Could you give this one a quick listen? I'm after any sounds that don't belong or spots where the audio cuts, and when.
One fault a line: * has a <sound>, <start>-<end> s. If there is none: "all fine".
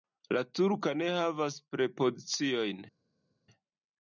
all fine